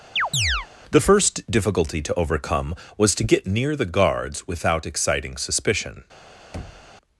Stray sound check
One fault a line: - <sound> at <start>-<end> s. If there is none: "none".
- chirp at 0.2-0.7 s
- thud at 6.5-6.9 s